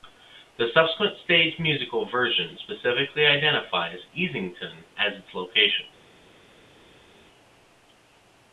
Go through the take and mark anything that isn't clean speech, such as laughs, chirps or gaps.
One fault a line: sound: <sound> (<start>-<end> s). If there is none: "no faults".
no faults